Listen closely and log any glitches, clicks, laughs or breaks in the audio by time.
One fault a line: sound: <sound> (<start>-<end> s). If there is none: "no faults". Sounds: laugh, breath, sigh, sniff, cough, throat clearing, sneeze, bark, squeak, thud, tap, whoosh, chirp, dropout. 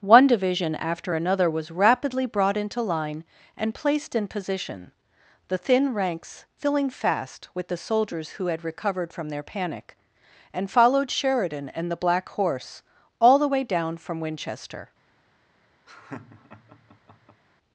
sound: laugh (15.9-17.4 s)